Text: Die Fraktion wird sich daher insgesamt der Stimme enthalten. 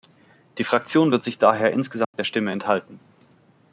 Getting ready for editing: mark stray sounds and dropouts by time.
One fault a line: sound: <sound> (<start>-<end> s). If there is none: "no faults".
sound: dropout (2.0-2.1 s)